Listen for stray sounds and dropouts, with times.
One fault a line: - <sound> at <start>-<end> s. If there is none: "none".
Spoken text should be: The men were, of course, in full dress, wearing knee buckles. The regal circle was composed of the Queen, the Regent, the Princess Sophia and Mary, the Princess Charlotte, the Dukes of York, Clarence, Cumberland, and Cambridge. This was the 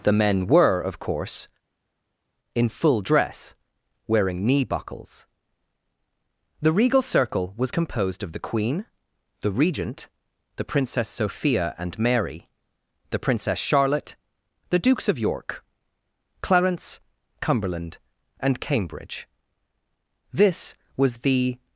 none